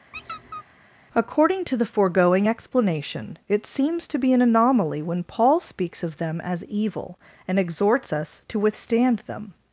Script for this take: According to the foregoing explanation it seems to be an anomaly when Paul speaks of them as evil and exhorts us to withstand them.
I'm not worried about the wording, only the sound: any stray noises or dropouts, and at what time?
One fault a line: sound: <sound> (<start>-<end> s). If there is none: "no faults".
sound: squeak (0.1-0.6 s)